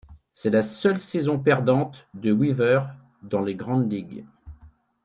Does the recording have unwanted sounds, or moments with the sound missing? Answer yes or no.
no